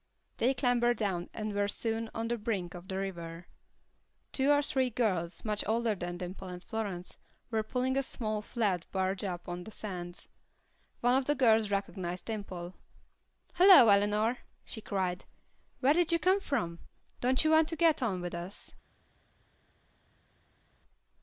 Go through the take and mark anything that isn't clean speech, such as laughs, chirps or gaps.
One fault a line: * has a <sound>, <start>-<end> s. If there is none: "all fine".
all fine